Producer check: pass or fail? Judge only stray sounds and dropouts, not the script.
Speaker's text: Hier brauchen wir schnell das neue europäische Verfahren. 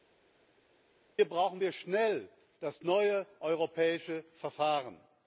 pass